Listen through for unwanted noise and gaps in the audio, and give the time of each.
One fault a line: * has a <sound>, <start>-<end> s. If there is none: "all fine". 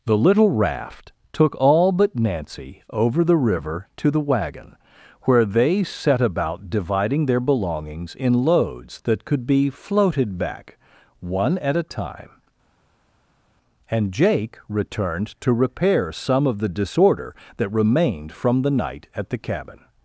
all fine